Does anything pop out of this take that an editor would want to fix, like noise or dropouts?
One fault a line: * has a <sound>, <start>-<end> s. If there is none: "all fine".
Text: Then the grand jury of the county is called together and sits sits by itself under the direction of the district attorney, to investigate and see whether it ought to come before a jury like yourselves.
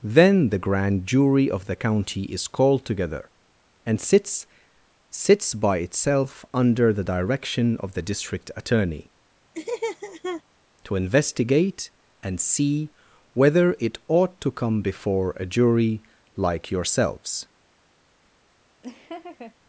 * has a laugh, 9.5-10.4 s
* has a laugh, 18.8-19.5 s